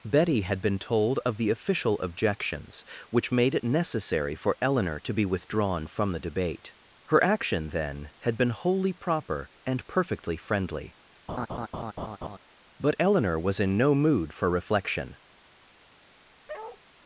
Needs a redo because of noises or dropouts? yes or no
yes